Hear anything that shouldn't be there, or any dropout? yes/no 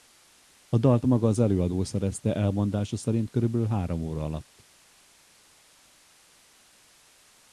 no